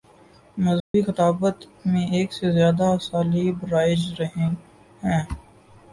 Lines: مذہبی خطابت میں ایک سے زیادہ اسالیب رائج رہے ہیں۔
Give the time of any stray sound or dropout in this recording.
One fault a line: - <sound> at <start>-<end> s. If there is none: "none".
- dropout at 0.8-0.9 s